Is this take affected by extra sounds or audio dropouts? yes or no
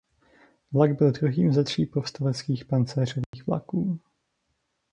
yes